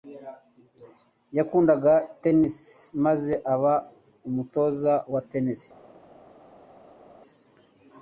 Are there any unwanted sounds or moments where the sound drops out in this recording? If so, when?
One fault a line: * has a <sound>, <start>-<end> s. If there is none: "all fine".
all fine